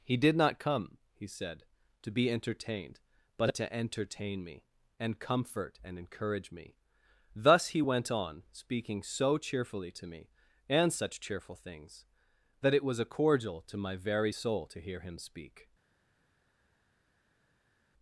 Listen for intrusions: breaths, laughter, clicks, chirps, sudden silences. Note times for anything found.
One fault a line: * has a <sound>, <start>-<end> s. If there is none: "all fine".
all fine